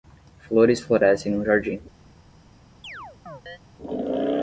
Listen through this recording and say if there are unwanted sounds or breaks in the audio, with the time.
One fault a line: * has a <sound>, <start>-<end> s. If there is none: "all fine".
* has a chirp, 2.8-3.6 s